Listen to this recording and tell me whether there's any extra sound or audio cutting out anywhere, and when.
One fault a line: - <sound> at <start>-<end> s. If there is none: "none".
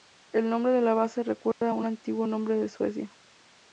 - dropout at 1.5-1.6 s